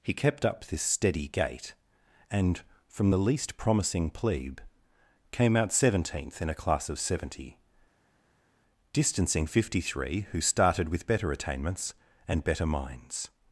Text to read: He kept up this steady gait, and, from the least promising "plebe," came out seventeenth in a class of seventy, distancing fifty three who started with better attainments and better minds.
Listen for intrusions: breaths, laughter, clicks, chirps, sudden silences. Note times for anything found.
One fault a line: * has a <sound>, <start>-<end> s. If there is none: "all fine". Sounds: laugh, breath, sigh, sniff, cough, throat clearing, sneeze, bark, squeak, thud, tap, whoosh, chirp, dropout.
all fine